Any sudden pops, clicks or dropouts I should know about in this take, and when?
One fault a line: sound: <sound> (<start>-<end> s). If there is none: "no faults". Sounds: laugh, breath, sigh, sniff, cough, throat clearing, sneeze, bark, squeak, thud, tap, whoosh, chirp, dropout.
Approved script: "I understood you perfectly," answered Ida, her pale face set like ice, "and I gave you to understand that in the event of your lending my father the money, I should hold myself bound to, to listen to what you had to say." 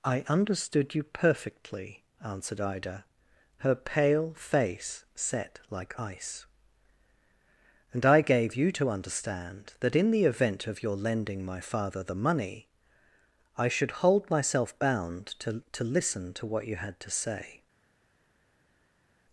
no faults